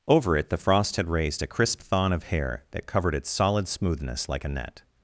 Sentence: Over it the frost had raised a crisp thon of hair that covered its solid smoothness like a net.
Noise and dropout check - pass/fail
pass